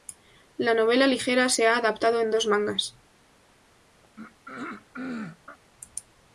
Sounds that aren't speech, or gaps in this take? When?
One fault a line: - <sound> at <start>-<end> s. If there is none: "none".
- throat clearing at 4.0-5.6 s